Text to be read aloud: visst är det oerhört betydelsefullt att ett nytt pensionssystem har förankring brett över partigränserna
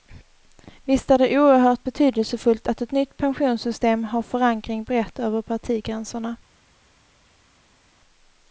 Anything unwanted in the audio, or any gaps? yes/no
no